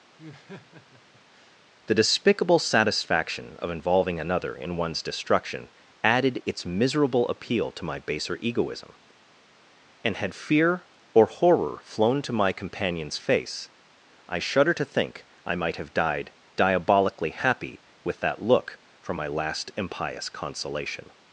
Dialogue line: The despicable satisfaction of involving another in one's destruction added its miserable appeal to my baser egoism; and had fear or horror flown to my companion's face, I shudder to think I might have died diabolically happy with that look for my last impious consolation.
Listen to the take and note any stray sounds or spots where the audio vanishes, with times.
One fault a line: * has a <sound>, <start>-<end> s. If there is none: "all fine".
* has a laugh, 0.2-1.6 s